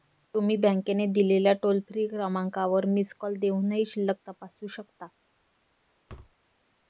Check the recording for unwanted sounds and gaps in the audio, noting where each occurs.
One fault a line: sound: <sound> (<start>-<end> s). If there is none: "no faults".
sound: thud (6.1-6.4 s)